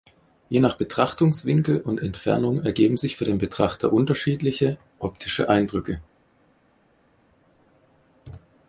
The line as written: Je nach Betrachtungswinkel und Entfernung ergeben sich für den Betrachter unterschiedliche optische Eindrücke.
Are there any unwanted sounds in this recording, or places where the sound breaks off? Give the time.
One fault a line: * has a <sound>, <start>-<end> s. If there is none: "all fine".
all fine